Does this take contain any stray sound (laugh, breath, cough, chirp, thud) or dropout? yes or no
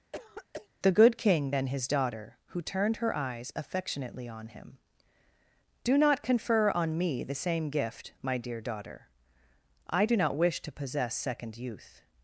yes